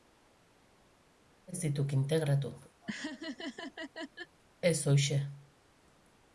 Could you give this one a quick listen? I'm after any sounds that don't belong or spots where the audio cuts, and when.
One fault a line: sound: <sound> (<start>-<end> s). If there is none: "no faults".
sound: laugh (2.8-4.4 s)